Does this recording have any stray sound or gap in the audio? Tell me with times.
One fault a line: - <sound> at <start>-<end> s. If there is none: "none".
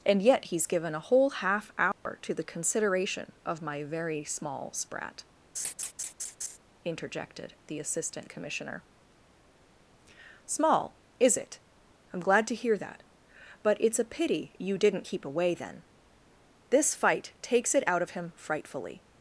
- dropout at 1.9-2.1 s
- laugh at 5.6-6.6 s